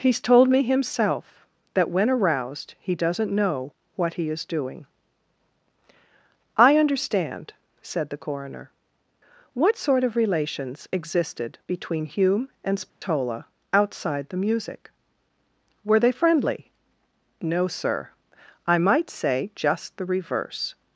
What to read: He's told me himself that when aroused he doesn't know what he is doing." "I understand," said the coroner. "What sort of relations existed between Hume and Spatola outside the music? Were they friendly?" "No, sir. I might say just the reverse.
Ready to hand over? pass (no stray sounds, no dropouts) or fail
fail